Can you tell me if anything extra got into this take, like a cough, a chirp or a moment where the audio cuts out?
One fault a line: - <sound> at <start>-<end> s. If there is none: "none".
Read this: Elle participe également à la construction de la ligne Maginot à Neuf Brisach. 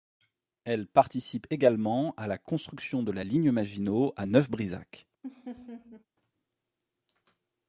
- laugh at 5.2-6.1 s